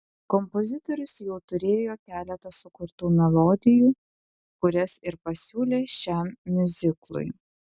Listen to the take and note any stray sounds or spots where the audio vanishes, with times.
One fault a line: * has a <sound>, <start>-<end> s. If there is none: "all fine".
all fine